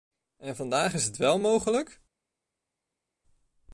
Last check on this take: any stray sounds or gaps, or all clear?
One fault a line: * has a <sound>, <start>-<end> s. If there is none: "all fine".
all fine